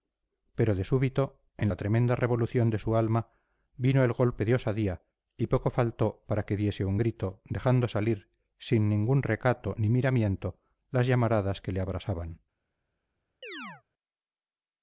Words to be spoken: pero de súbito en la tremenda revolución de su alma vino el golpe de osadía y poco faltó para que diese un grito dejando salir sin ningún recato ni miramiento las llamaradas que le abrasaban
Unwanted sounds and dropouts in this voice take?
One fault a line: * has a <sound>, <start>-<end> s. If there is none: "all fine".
* has a chirp, 13.4-13.8 s